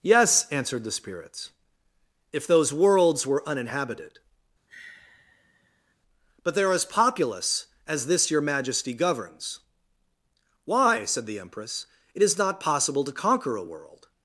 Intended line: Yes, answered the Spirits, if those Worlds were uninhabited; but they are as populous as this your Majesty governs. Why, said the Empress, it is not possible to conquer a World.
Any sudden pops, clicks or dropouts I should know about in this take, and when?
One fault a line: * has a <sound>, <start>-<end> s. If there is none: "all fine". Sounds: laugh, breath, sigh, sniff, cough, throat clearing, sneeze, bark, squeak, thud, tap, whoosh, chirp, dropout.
* has a sigh, 4.7-6.0 s